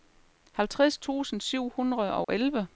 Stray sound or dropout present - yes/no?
yes